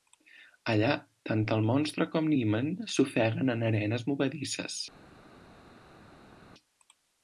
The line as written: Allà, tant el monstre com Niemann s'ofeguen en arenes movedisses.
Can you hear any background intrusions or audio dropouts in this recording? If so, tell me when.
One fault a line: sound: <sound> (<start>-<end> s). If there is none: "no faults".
no faults